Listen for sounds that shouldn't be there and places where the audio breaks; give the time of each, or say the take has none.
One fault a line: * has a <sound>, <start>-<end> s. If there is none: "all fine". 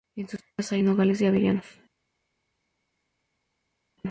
all fine